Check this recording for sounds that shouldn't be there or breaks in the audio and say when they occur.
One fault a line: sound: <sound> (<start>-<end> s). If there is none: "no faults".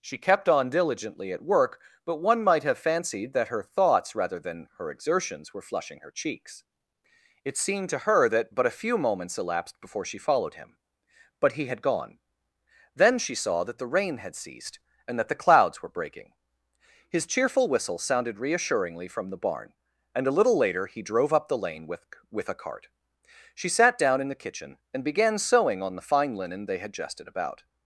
no faults